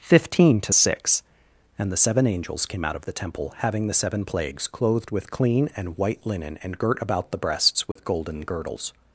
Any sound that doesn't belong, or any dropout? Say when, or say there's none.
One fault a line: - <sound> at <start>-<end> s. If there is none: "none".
- dropout at 7.9-8.0 s